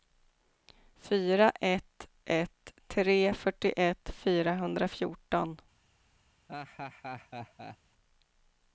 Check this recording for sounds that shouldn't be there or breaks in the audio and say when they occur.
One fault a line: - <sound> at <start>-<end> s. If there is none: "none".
- laugh at 6.5-7.8 s